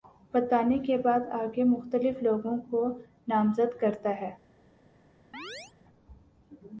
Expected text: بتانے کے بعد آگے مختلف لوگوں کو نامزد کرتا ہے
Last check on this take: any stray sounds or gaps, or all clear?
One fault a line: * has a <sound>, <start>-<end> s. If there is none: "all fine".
* has a chirp, 5.3-5.7 s